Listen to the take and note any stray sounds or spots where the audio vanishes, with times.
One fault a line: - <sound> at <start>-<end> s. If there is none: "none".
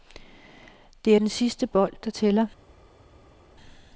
none